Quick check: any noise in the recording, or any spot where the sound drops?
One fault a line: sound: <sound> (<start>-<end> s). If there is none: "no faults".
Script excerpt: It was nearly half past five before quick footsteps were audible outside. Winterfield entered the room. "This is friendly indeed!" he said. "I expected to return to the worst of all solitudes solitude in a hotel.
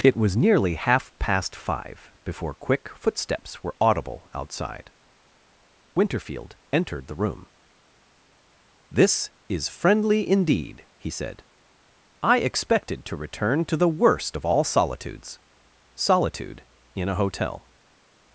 no faults